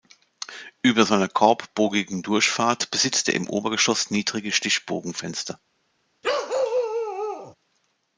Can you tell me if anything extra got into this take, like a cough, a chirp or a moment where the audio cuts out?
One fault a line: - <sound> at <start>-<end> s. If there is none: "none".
- bark at 6.2-7.5 s